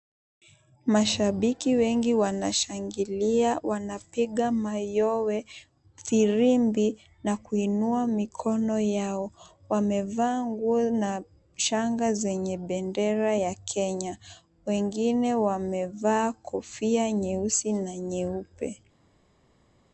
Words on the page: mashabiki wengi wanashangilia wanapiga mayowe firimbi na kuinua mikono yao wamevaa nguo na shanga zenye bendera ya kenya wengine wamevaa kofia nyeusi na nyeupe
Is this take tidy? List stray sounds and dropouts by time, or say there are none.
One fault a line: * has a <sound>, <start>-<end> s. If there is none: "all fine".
all fine